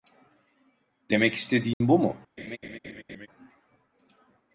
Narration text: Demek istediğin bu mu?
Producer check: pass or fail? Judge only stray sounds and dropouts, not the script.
fail